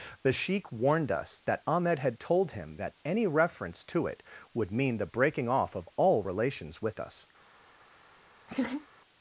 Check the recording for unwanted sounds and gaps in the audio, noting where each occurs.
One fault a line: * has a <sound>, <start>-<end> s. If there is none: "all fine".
* has a laugh, 8.5-8.9 s